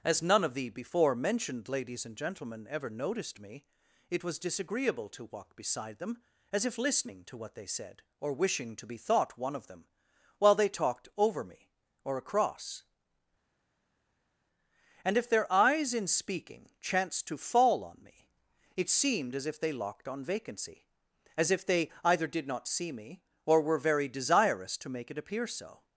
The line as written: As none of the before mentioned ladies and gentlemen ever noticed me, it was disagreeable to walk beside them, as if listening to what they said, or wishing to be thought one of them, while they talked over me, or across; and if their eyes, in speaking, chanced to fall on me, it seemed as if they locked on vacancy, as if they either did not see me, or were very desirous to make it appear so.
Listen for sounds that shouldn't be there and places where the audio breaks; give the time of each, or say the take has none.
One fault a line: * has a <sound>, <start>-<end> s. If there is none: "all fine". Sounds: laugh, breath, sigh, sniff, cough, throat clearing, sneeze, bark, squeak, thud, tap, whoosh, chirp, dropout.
all fine